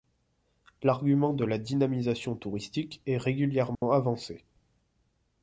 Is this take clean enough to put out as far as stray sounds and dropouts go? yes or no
no